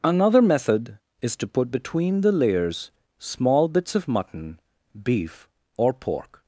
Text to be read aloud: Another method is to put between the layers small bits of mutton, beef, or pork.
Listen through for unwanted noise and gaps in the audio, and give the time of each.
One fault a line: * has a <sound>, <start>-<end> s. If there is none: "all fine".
all fine